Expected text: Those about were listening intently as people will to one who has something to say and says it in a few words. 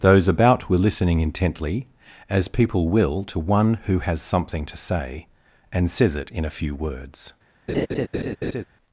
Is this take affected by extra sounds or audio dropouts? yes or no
yes